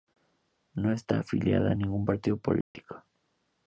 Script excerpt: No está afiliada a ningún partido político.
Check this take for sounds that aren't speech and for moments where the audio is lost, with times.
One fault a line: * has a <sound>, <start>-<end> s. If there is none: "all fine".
* has a dropout, 2.6-2.8 s